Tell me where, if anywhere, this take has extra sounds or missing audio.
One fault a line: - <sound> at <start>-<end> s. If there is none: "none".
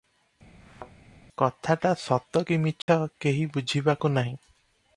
- thud at 0.6-0.9 s
- dropout at 2.8-2.9 s